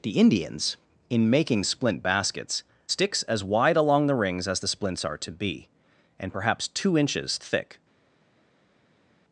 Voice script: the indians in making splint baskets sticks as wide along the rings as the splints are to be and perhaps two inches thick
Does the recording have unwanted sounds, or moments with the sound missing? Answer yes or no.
no